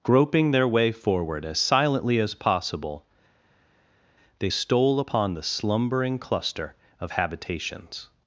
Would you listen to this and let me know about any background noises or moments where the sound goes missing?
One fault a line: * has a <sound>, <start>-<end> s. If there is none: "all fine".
all fine